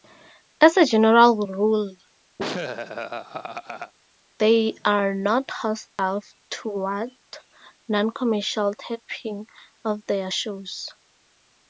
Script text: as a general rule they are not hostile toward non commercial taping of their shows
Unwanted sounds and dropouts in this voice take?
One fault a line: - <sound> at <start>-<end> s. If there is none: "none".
- laugh at 2.4-3.9 s
- dropout at 5.9-6.0 s